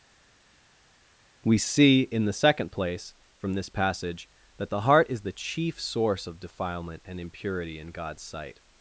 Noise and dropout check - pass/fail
pass